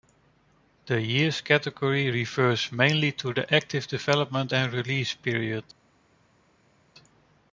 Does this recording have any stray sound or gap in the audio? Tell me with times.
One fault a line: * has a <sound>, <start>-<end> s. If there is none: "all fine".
all fine